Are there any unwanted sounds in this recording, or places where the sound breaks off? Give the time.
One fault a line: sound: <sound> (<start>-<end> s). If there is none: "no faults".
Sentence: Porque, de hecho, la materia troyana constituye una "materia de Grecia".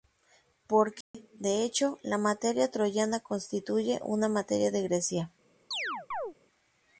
sound: dropout (1.0-1.1 s)
sound: chirp (5.7-6.3 s)